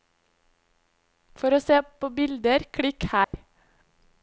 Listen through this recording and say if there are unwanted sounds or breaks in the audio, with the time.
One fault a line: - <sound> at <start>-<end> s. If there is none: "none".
- dropout at 3.2-3.3 s